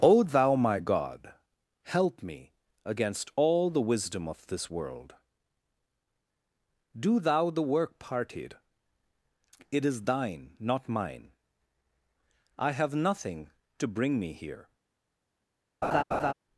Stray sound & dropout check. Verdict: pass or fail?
fail